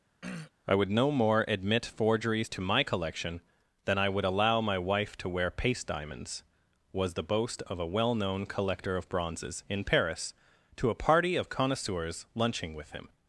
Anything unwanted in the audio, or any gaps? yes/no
yes